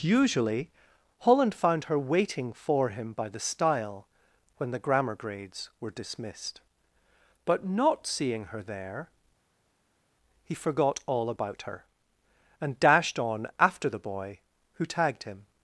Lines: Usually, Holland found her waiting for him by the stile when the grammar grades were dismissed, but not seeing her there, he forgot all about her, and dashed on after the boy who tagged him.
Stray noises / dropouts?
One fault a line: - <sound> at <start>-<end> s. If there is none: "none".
none